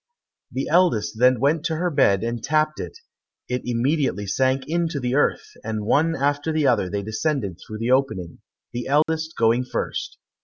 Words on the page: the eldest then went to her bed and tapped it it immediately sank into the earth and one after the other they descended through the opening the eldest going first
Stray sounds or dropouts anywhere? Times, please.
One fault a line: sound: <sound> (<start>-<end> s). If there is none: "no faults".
sound: dropout (9.0-9.1 s)